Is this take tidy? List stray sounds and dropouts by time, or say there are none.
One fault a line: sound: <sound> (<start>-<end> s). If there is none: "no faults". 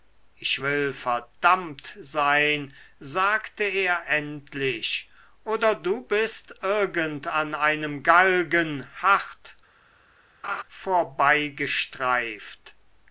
sound: laugh (10.4-10.6 s)